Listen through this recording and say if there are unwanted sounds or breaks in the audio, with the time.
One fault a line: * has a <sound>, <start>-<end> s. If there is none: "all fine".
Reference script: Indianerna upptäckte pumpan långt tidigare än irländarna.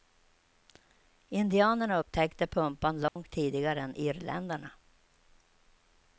* has a dropout, 3.1-3.2 s